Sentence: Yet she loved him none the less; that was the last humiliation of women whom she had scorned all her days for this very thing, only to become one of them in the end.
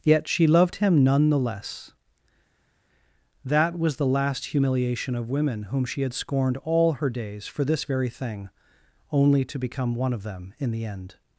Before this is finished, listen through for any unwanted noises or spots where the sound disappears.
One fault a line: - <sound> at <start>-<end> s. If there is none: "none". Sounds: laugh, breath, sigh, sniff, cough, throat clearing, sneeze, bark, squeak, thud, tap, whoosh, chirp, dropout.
none